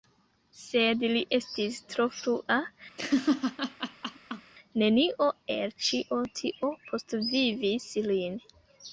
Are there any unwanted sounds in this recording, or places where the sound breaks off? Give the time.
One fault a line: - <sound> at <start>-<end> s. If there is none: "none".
- laugh at 3.0-4.5 s